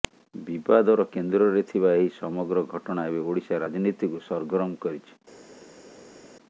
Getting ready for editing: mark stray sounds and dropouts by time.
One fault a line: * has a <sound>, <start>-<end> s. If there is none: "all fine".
all fine